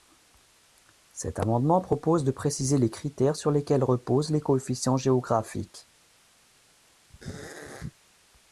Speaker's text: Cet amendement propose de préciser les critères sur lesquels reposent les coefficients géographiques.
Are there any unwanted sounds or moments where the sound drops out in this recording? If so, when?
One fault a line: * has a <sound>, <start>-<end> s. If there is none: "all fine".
* has a throat clearing, 7.1-8.0 s